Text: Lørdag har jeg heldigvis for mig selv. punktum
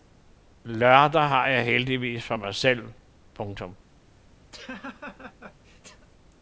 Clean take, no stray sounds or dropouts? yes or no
no